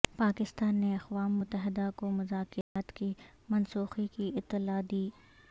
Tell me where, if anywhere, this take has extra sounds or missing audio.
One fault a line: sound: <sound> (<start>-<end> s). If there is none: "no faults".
sound: dropout (2.6-2.8 s)